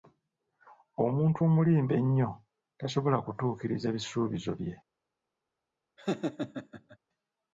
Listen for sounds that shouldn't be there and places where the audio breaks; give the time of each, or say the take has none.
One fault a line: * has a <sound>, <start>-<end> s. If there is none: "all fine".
* has a laugh, 6.0-7.0 s